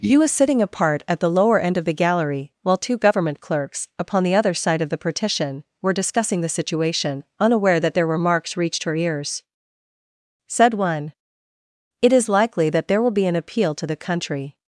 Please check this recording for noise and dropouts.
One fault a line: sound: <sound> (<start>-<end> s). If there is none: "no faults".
no faults